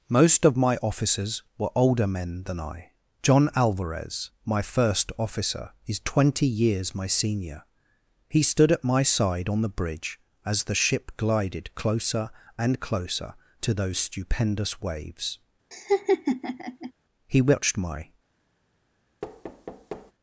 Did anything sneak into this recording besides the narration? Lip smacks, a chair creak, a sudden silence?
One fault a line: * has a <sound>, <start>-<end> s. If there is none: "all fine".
* has a laugh, 15.7-16.9 s
* has a thud, 19.2-20.1 s